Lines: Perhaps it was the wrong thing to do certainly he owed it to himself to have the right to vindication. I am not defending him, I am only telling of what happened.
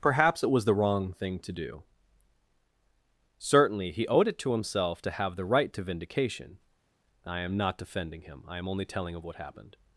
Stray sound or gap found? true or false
false